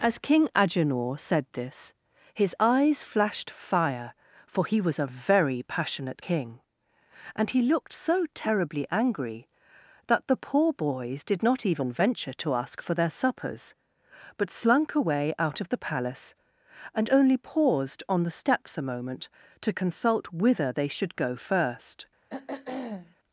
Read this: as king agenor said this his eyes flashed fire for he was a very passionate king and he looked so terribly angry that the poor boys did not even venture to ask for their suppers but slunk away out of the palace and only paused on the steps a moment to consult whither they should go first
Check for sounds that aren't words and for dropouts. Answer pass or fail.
fail